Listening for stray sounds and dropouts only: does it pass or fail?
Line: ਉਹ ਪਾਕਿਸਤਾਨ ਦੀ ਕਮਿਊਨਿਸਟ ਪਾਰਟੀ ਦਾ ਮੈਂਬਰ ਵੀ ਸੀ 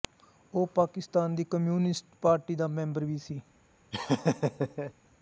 fail